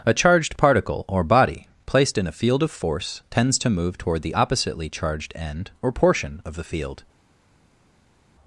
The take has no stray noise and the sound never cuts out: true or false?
true